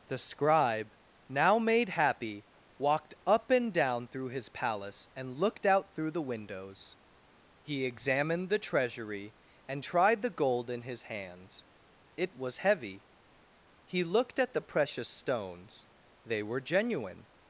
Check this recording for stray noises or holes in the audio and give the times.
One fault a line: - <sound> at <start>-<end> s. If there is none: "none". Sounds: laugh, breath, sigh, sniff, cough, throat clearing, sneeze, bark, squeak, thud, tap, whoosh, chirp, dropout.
none